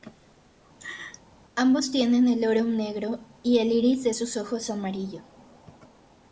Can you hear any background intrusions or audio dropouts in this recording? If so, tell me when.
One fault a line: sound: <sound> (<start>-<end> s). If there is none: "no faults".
sound: laugh (0.8-1.2 s)